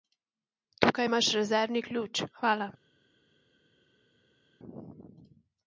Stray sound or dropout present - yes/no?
no